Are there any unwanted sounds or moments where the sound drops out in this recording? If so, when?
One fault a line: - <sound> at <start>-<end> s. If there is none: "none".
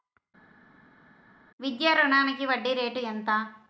none